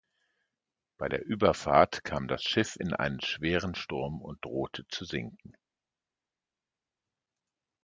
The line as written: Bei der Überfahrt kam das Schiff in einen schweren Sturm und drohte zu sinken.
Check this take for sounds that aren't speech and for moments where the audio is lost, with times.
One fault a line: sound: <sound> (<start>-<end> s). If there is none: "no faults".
no faults